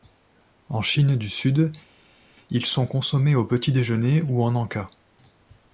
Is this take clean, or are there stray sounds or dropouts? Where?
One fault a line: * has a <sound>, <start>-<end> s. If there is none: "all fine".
all fine